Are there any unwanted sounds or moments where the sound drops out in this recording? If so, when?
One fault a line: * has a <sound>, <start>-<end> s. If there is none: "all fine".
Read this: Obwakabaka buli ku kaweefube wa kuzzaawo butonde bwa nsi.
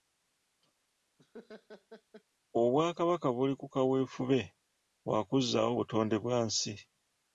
* has a laugh, 1.2-2.2 s